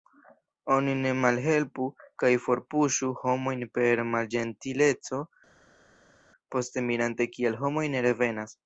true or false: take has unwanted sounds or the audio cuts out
false